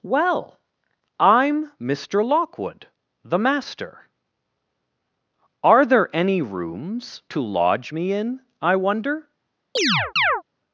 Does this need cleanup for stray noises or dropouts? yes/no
yes